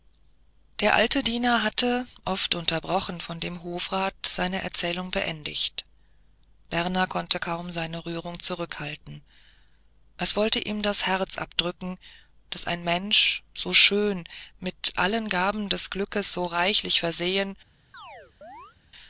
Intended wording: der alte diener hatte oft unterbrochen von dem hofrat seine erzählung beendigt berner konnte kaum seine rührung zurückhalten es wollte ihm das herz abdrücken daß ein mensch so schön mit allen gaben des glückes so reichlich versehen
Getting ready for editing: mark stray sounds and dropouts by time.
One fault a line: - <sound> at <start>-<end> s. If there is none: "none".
- chirp at 17.9-18.8 s